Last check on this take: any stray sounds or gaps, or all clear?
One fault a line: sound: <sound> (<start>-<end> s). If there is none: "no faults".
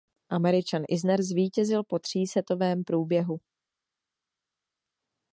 no faults